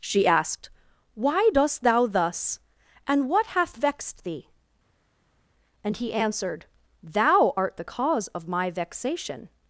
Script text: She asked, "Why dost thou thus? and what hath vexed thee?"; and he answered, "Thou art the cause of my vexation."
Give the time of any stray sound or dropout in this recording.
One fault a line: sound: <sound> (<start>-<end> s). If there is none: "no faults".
no faults